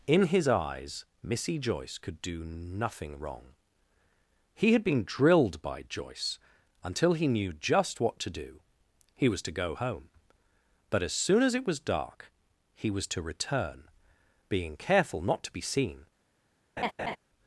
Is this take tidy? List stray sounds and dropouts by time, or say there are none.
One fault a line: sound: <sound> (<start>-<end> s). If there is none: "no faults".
sound: laugh (16.8-17.2 s)